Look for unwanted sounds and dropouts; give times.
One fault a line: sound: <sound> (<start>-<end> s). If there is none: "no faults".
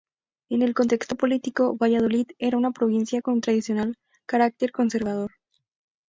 no faults